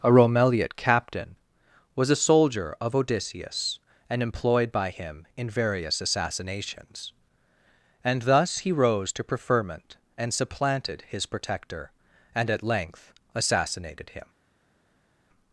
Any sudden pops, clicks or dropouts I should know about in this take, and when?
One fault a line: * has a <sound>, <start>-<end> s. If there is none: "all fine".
all fine